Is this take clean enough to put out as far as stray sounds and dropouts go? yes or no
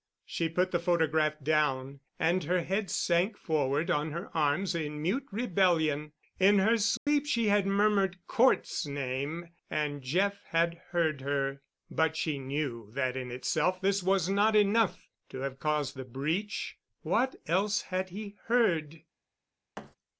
no